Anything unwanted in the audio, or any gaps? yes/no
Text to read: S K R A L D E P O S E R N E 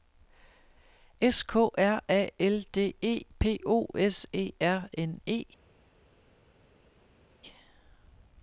no